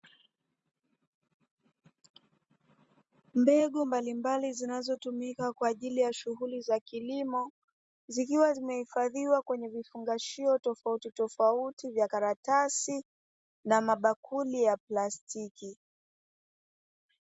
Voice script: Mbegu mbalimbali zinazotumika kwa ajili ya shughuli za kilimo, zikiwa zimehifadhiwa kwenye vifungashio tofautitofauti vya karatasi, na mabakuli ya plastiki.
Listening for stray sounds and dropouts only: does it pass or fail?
pass